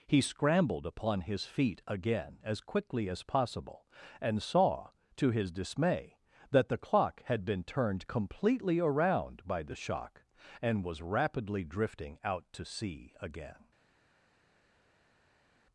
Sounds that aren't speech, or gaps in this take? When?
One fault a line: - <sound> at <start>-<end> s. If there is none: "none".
none